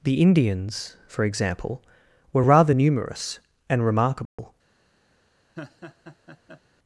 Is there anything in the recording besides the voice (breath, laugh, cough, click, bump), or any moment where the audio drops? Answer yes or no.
yes